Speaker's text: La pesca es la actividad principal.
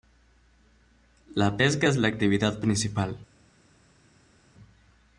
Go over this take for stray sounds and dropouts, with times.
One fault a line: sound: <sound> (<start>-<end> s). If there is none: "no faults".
no faults